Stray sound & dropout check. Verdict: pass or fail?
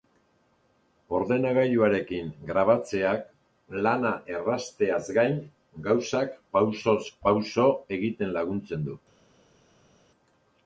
pass